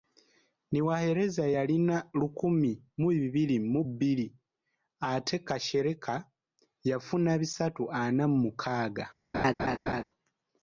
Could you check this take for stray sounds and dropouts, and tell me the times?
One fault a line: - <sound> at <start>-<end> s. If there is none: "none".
- laugh at 9.3-10.0 s